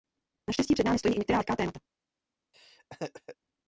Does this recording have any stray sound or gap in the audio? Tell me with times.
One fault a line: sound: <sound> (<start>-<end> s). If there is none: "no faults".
sound: laugh (2.5-3.4 s)